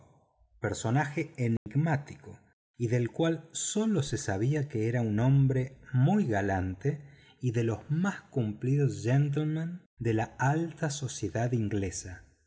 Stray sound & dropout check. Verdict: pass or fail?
fail